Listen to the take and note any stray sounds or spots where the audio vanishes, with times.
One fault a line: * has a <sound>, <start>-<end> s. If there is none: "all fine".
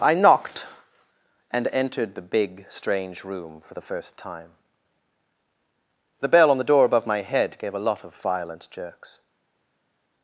all fine